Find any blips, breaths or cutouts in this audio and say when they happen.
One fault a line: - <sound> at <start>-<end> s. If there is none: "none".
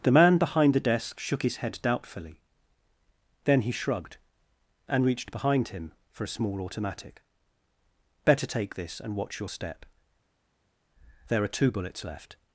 none